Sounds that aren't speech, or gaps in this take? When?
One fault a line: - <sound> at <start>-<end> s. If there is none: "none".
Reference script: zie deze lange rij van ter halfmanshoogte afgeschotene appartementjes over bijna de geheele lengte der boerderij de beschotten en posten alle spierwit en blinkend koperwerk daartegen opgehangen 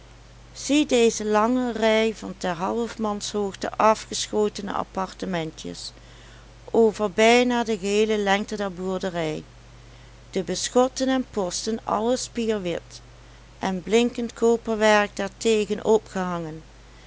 none